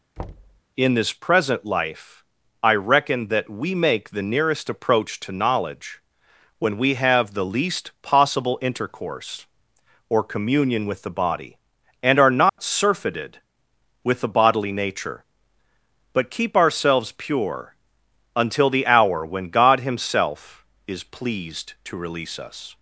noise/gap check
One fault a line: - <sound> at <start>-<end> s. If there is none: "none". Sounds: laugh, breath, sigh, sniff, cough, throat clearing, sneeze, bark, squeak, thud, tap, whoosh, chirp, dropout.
- thud at 0.2-0.6 s
- dropout at 12.5-12.6 s